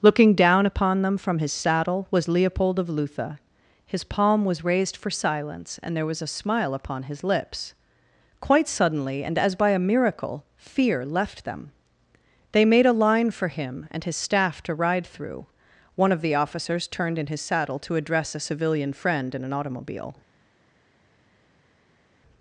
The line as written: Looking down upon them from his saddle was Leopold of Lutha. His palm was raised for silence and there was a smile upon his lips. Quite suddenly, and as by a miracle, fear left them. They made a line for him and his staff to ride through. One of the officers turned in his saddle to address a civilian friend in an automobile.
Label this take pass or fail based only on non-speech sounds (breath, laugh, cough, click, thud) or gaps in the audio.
pass